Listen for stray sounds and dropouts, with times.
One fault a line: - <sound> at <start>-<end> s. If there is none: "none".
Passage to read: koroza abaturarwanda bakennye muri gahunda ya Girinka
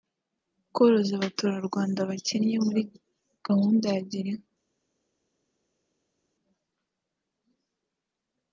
none